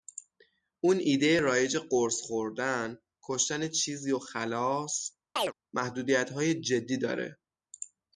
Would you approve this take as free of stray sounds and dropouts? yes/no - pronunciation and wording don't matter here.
no